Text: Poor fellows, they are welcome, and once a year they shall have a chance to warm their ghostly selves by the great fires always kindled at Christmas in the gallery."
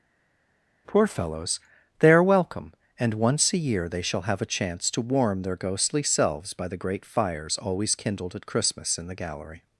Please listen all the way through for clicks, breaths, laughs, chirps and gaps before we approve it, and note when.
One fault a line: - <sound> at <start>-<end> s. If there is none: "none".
none